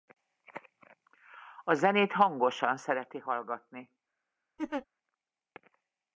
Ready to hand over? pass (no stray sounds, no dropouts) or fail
fail